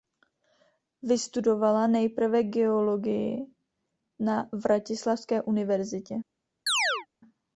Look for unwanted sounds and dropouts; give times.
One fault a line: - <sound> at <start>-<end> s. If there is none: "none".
- chirp at 6.7-7.1 s